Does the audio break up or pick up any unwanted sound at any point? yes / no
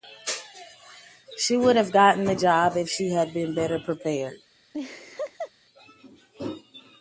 yes